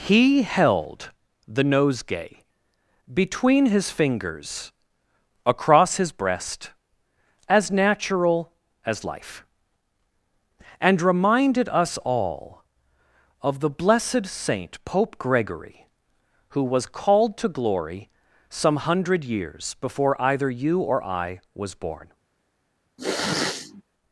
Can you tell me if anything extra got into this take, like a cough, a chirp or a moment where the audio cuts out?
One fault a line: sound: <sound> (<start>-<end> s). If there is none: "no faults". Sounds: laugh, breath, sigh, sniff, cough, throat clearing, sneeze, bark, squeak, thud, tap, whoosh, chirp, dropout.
sound: sniff (23.0-23.8 s)